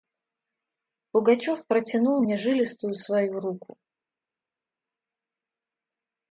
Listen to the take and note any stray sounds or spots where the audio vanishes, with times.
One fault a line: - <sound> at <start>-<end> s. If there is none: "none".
none